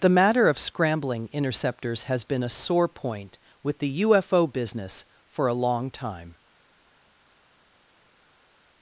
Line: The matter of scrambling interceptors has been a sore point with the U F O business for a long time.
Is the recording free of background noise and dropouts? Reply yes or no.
yes